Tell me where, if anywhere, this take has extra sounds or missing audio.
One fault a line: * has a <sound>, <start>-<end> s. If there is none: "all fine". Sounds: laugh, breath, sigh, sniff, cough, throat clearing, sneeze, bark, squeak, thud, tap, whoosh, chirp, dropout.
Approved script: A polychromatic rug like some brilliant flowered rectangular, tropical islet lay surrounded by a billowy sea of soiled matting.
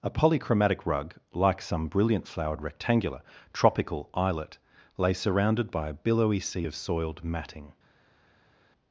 all fine